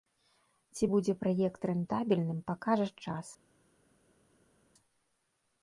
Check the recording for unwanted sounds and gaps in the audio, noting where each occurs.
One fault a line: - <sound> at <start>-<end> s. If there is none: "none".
none